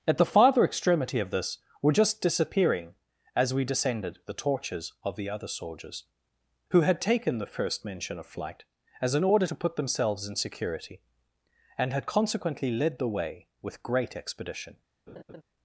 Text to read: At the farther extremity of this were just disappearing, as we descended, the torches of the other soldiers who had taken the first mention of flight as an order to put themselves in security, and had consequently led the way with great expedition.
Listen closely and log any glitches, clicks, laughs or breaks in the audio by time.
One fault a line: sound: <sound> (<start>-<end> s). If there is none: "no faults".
sound: laugh (15.1-15.4 s)